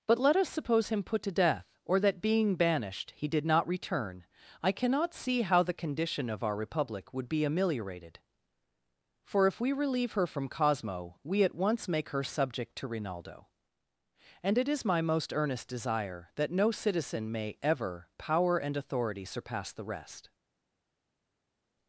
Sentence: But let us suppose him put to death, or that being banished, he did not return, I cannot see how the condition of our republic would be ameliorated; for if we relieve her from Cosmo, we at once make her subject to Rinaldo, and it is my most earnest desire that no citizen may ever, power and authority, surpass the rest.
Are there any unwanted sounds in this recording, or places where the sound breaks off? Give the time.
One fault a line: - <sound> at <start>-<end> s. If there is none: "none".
none